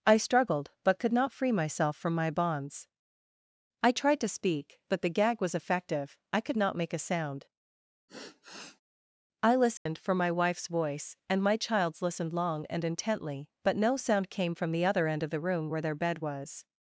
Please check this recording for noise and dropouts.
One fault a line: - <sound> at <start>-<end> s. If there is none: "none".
- sigh at 8.1-8.8 s
- dropout at 9.8-9.9 s